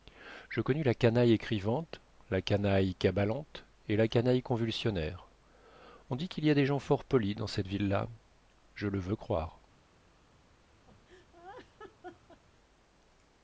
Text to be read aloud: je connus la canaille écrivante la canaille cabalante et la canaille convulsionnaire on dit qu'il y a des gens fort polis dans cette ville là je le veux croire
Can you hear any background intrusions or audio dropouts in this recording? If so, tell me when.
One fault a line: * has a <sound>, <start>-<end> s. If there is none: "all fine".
* has a laugh, 10.9-12.4 s